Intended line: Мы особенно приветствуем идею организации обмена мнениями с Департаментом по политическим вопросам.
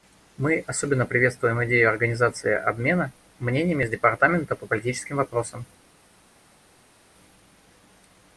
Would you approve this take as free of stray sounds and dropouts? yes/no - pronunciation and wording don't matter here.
yes